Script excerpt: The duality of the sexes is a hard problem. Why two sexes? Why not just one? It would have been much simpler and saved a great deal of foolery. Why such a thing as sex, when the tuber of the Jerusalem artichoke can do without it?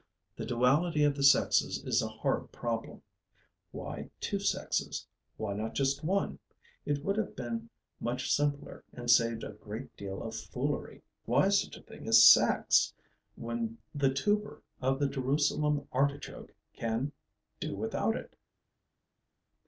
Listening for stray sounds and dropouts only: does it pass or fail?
pass